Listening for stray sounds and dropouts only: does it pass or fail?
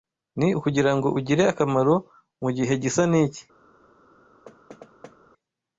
fail